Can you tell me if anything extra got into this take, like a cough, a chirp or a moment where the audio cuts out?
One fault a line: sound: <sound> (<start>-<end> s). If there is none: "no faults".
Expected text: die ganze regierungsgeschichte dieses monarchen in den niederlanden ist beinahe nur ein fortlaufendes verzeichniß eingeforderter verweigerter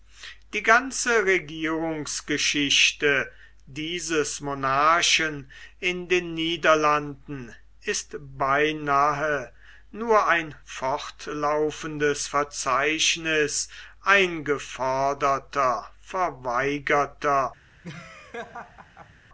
sound: laugh (17.8-19.1 s)